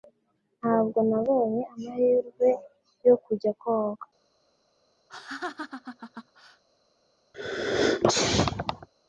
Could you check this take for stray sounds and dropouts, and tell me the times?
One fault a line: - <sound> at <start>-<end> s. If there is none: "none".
- laugh at 5.1-6.6 s
- sneeze at 7.3-8.9 s